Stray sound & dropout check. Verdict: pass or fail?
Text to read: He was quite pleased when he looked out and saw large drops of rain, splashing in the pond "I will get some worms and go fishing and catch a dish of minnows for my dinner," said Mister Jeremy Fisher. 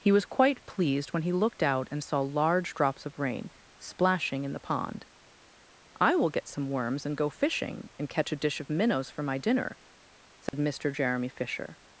fail